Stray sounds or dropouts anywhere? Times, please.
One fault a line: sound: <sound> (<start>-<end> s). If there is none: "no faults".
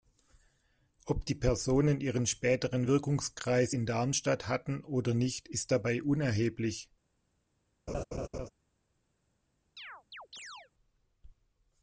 sound: laugh (7.9-8.5 s)
sound: chirp (9.8-10.7 s)